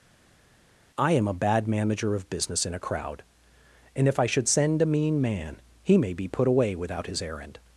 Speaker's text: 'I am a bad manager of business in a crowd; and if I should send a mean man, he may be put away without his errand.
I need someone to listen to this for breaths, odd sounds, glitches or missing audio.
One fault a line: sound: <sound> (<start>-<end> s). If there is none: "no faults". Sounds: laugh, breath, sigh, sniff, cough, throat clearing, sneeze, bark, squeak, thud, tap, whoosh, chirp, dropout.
no faults